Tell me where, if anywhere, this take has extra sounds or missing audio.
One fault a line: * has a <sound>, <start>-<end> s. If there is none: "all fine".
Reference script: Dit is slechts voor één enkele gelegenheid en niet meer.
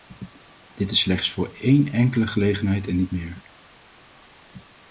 all fine